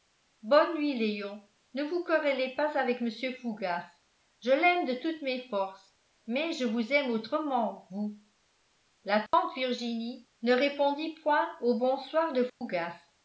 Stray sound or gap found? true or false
true